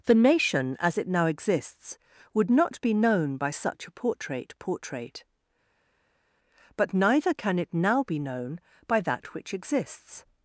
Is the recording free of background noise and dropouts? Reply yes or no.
yes